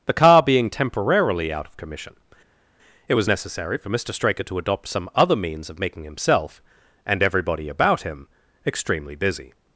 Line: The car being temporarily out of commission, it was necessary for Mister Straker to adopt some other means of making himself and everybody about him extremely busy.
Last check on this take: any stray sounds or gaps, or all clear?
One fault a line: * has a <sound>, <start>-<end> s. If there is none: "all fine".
all fine